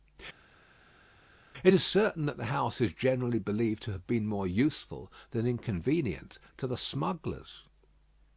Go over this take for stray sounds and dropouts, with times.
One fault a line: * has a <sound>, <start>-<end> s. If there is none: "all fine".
all fine